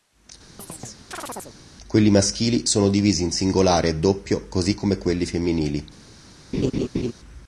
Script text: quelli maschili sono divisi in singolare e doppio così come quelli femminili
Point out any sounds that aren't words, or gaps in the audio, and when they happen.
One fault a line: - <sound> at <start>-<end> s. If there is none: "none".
- chirp at 0.6-1.6 s
- laugh at 6.5-7.1 s